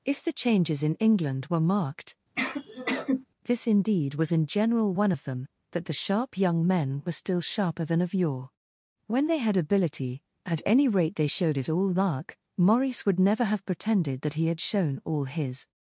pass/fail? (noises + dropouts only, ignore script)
fail